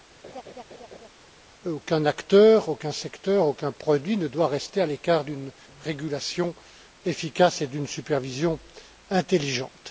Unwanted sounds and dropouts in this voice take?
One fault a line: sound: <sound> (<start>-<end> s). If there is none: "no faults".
sound: laugh (0.2-1.1 s)